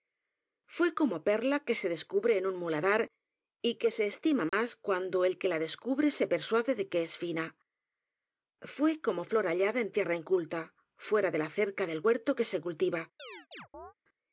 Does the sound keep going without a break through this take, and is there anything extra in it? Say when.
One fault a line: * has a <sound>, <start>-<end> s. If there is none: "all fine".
* has a dropout, 4.5-4.5 s
* has a chirp, 13.2-13.9 s